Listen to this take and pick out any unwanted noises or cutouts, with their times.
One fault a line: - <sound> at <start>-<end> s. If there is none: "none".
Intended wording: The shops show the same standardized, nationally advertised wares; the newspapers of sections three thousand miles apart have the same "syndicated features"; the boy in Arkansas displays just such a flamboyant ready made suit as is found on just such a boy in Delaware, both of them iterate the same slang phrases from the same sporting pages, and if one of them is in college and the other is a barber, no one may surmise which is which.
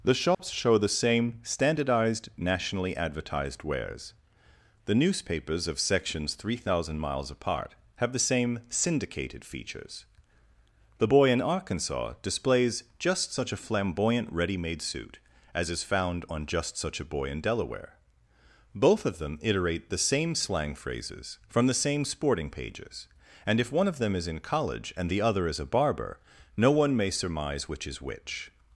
- dropout at 0.3-0.4 s